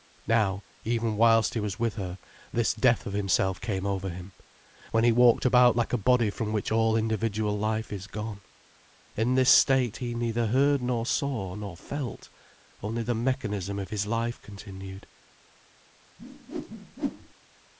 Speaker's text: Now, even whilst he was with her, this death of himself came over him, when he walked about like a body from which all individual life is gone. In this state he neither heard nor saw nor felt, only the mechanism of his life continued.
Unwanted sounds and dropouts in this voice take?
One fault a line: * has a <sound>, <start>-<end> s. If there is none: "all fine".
* has a whoosh, 16.2-17.3 s